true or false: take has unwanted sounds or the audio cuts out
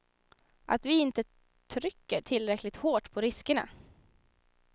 false